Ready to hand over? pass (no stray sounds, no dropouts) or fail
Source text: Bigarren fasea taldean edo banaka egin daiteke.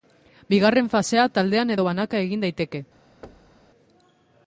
fail